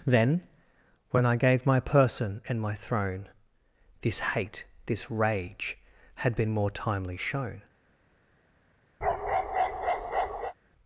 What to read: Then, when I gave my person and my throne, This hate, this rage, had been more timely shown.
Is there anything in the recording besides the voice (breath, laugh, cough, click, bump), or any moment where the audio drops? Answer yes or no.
yes